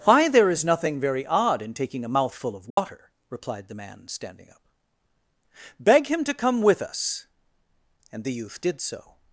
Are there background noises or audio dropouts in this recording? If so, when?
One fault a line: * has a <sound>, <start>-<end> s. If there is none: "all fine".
* has a dropout, 2.7-2.8 s